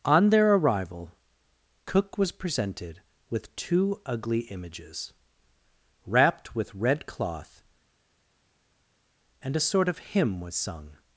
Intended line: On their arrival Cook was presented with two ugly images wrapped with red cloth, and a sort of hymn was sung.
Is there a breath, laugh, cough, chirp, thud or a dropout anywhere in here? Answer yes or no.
no